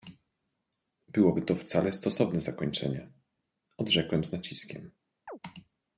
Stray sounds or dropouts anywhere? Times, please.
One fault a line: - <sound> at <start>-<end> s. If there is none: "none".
- chirp at 5.3-5.4 s